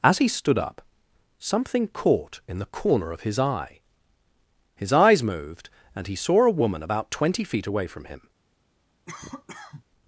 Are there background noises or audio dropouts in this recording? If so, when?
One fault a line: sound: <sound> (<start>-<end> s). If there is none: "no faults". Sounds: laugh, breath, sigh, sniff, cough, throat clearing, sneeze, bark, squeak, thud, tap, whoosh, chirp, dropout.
sound: cough (9.1-9.8 s)